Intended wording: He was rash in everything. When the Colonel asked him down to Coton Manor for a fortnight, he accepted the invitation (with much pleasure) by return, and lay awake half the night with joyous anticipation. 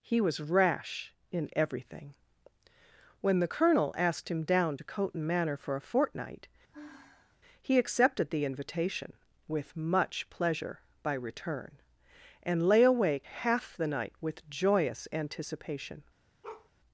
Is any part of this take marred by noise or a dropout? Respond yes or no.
yes